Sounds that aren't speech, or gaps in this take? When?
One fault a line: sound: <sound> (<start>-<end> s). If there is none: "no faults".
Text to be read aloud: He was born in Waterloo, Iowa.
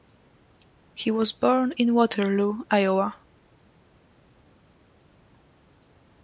no faults